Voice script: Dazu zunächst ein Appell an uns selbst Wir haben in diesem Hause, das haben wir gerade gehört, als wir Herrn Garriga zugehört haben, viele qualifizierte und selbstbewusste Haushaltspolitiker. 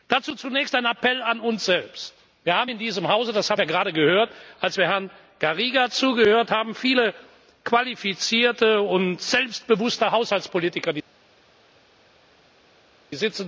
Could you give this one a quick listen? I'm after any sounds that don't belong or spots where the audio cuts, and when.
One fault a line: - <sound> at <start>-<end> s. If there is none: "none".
none